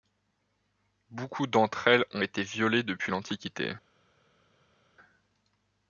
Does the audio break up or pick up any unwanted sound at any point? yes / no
no